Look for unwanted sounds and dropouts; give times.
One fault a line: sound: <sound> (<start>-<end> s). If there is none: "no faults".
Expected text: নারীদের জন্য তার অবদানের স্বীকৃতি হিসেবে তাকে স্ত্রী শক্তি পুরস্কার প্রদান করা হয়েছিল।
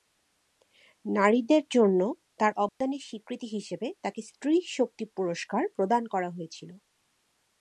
sound: dropout (2.7-2.8 s)